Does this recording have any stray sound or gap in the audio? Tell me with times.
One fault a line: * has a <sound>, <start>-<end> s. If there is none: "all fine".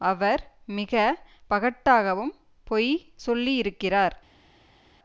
all fine